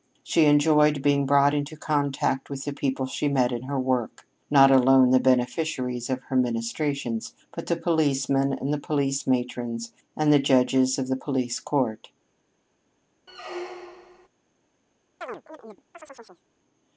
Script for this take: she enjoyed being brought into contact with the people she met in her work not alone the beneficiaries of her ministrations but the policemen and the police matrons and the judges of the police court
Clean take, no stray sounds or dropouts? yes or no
no